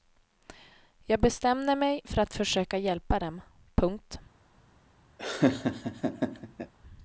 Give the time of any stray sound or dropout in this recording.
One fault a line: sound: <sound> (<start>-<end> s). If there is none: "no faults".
sound: laugh (5.2-6.7 s)